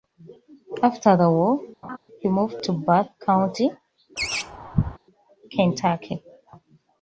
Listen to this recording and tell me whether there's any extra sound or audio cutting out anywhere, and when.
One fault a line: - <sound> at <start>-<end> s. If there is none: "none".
- laugh at 1.8-2.0 s
- laugh at 4.2-5.0 s